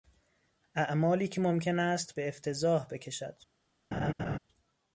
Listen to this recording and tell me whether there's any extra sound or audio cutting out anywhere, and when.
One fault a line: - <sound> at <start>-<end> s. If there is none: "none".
- laugh at 3.9-4.4 s